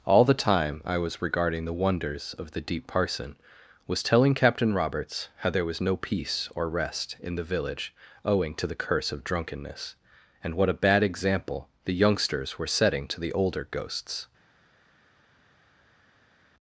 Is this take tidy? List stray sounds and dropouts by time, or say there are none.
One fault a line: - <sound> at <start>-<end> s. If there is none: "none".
none